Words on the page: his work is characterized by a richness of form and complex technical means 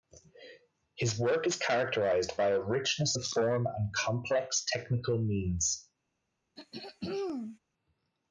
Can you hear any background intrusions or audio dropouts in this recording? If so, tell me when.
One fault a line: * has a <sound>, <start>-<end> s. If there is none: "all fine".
* has a throat clearing, 6.6-7.6 s